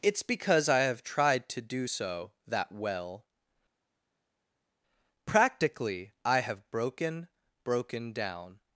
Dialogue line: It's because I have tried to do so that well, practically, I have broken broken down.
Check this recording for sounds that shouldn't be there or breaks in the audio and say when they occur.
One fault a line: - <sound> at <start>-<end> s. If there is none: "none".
none